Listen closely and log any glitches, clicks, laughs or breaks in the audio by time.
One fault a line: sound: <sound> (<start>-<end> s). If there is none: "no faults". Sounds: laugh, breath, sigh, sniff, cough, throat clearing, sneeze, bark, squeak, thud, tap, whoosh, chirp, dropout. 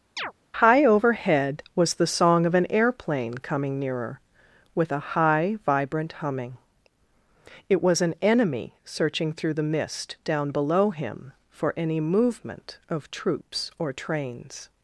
sound: chirp (0.2-0.3 s)